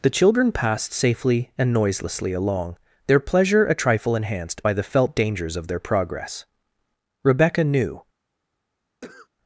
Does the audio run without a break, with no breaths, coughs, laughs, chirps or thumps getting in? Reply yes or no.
no